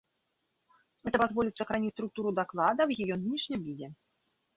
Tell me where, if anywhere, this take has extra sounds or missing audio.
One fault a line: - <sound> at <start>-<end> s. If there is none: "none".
none